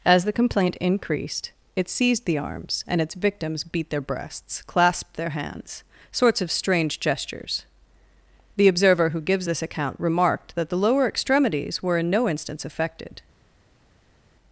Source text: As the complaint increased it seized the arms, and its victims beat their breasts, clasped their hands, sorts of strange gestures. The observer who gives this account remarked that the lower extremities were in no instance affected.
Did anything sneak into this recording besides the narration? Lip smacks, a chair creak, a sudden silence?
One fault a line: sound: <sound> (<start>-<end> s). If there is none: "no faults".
no faults